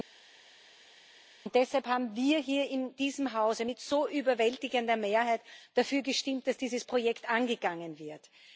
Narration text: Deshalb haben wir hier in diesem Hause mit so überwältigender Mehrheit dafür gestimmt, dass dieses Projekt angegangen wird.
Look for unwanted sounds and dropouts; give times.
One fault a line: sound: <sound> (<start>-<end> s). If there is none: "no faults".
no faults